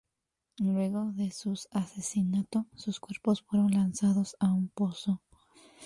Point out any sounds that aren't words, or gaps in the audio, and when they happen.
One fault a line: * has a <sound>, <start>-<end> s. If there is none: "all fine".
all fine